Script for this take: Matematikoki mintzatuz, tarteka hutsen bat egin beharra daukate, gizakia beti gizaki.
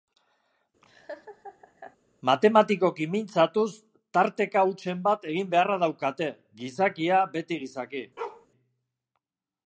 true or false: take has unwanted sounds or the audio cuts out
true